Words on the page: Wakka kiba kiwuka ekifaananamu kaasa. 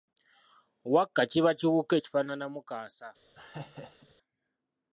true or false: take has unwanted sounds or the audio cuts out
true